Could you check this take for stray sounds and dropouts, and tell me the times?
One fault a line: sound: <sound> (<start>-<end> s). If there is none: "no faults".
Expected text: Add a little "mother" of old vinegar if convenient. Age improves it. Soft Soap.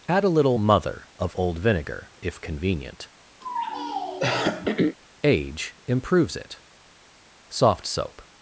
sound: throat clearing (3.4-5.0 s)